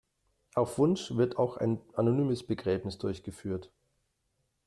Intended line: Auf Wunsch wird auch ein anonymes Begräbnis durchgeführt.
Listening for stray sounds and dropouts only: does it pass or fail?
pass